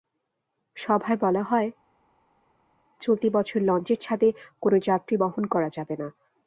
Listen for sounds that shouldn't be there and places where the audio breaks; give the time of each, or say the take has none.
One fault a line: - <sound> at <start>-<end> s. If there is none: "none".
none